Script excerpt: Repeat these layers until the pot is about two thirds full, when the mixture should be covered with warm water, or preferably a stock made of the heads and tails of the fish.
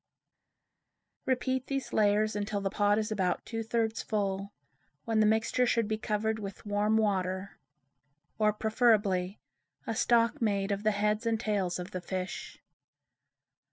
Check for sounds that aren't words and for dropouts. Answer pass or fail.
pass